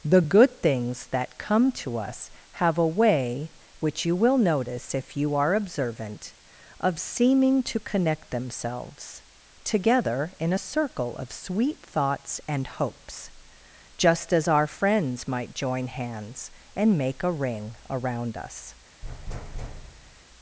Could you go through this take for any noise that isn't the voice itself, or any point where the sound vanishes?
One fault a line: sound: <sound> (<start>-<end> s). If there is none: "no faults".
sound: thud (19.0-20.2 s)